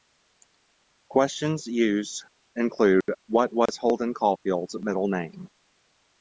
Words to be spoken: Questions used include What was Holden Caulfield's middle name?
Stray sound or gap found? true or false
true